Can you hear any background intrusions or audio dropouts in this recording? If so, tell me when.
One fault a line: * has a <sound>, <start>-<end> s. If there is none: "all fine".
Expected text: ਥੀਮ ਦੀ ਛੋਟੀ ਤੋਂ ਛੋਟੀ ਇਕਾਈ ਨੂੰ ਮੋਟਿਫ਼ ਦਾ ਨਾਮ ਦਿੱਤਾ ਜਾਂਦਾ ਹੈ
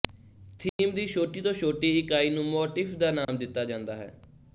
* has a dropout, 0.7-0.8 s
* has a dropout, 3.2-3.3 s